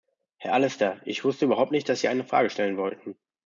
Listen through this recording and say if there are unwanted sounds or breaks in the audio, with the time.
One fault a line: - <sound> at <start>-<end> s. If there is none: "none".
none